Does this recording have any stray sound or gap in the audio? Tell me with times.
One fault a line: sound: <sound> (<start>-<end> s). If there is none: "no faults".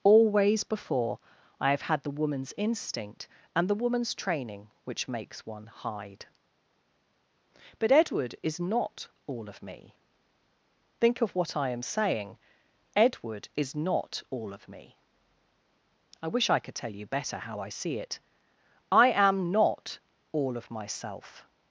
no faults